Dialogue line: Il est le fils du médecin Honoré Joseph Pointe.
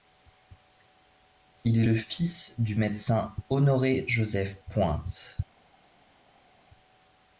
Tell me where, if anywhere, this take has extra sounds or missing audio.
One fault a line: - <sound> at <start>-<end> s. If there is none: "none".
none